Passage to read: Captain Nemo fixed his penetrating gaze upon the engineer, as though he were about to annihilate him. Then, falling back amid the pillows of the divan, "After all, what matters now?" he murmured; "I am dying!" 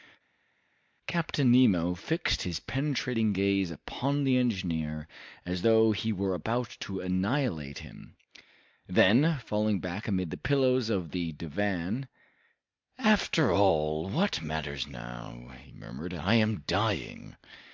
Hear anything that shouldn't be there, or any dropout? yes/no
no